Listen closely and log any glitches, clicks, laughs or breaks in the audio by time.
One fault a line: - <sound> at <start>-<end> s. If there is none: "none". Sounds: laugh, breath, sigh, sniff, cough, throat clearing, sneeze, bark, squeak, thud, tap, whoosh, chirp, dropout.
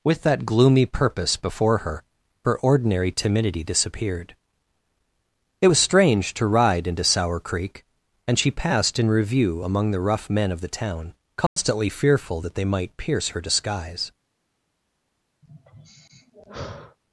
- dropout at 11.5-11.6 s
- sigh at 15.4-17.0 s